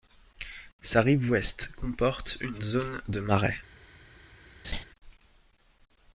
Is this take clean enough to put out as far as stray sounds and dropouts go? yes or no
no